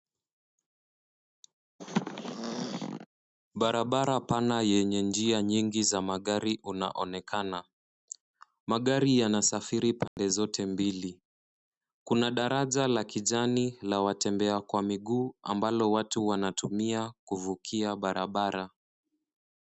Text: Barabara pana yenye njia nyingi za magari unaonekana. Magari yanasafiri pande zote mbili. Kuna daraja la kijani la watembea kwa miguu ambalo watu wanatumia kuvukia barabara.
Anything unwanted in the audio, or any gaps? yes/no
yes